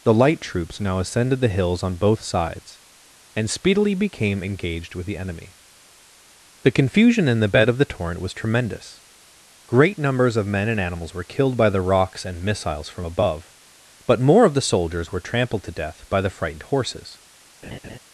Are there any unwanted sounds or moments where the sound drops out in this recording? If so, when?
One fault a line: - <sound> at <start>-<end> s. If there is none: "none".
- laugh at 17.6-18.0 s